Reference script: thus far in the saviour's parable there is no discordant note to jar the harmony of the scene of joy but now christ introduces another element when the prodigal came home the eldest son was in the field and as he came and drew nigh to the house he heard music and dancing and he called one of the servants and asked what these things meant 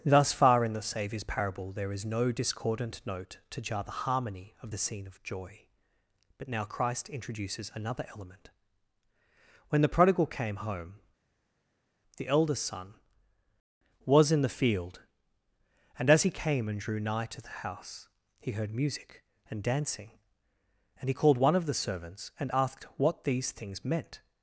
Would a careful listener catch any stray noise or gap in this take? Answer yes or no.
no